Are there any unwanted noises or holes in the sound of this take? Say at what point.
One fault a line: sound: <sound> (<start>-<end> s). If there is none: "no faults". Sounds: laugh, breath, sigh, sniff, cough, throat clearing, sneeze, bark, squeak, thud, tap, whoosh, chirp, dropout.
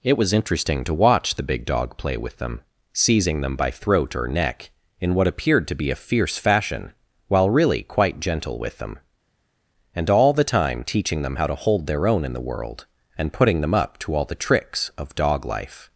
no faults